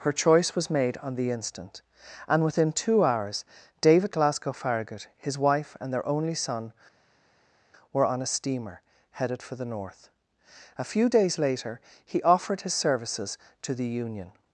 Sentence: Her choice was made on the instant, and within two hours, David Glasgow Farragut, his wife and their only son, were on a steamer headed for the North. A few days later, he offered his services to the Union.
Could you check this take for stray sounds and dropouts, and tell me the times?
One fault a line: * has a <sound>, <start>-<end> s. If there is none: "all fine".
all fine